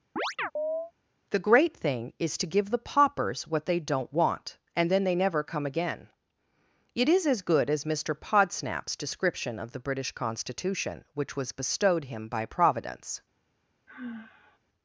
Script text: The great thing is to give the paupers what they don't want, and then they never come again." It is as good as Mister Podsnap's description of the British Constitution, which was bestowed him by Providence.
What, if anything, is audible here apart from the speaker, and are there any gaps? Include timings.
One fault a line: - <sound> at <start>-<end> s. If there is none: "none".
- chirp at 0.2-0.9 s
- sigh at 13.9-14.6 s